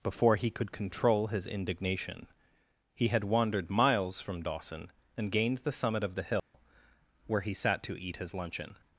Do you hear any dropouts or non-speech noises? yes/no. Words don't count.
yes